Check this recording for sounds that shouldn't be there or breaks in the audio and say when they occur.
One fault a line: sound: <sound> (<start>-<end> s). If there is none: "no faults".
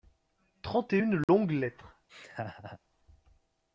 sound: dropout (1.2-1.3 s)
sound: laugh (2.1-2.8 s)